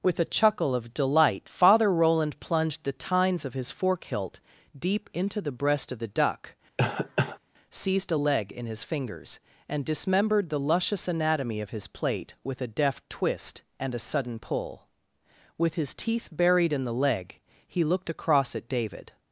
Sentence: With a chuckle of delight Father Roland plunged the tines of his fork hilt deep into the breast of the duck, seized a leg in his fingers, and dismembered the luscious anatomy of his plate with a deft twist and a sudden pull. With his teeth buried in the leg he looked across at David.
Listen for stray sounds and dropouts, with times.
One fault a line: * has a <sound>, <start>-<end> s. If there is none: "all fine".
* has a cough, 6.8-7.4 s